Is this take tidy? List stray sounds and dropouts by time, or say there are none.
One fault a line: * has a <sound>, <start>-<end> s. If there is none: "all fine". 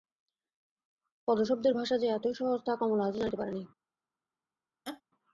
* has a laugh, 4.8-5.0 s